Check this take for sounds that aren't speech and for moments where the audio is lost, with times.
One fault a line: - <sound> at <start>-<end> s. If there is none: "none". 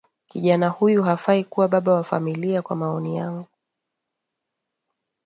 none